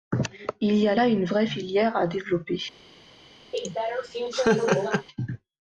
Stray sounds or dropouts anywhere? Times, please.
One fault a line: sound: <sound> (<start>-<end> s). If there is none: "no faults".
sound: laugh (3.5-5.1 s)